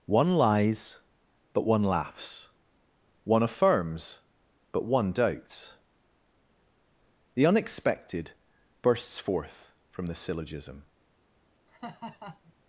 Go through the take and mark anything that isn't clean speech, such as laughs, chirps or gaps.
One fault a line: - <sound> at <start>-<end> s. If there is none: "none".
- laugh at 11.7-12.5 s